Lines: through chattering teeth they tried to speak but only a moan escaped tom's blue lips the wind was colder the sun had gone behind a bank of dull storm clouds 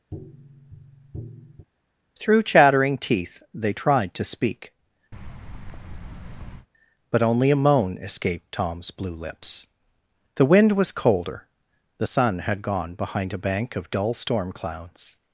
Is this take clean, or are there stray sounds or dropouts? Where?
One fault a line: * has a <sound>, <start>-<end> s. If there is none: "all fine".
* has a tap, 0.1-1.7 s
* has a thud, 5.1-6.7 s